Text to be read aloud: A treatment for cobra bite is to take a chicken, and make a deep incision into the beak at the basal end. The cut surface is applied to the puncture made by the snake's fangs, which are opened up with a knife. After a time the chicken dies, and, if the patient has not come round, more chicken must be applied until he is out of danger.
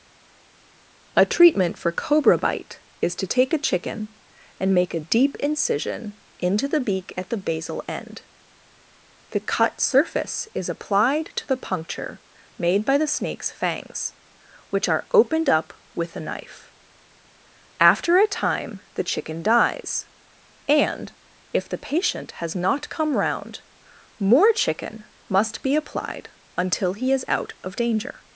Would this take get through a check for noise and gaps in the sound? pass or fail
pass